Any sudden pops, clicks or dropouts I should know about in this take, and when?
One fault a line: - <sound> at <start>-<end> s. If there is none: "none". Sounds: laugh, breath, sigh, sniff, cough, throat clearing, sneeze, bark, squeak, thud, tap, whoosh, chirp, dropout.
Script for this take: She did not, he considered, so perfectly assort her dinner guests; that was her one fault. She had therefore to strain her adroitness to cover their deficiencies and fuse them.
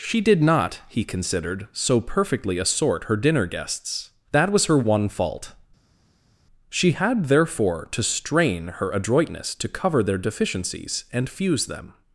none